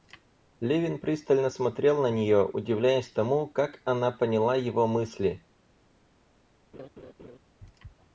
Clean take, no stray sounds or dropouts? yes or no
no